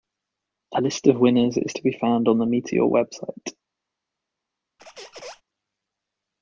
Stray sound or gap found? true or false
true